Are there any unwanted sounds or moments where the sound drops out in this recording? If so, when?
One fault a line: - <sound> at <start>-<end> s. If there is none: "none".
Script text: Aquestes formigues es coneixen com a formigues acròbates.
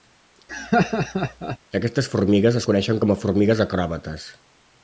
- laugh at 0.5-1.6 s